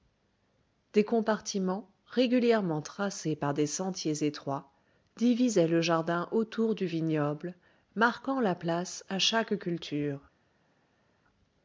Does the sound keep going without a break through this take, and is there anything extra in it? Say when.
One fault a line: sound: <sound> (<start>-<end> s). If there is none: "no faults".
no faults